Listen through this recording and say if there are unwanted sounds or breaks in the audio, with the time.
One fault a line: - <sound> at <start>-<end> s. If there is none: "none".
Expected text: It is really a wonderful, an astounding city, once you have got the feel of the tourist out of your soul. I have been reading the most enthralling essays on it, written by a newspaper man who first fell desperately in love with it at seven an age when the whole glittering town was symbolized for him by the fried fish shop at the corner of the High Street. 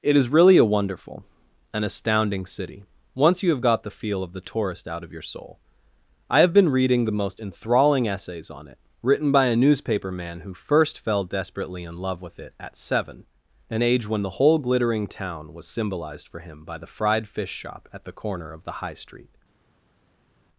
none